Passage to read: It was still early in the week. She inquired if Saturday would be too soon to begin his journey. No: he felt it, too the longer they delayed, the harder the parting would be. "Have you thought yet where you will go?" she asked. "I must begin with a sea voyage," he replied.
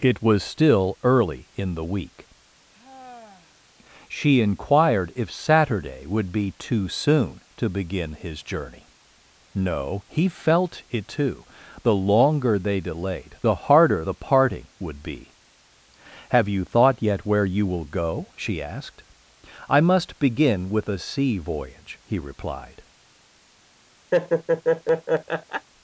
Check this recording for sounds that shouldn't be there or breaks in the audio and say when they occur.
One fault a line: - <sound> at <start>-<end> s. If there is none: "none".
- sigh at 2.7-3.7 s
- laugh at 24.1-25.7 s